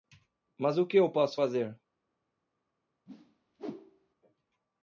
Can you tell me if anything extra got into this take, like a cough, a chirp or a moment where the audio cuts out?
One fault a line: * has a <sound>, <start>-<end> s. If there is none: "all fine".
* has a whoosh, 3.1-4.1 s